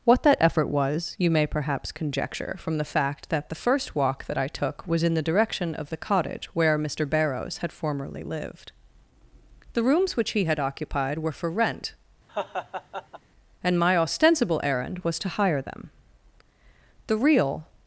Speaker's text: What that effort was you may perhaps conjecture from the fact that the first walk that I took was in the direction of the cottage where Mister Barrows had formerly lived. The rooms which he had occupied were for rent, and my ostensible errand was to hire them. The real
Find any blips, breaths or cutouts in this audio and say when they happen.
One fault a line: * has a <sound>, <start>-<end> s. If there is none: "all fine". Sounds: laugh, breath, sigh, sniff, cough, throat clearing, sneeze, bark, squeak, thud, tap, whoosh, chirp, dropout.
* has a laugh, 12.3-13.2 s